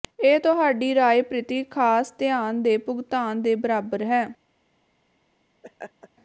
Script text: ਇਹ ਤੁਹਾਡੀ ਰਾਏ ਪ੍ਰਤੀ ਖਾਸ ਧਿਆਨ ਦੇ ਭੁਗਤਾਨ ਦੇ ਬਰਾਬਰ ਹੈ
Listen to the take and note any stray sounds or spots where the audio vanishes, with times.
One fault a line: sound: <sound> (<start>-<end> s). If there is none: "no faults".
sound: laugh (5.6-6.1 s)